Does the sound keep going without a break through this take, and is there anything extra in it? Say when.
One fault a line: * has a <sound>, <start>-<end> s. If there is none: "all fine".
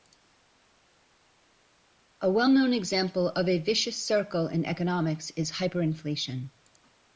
all fine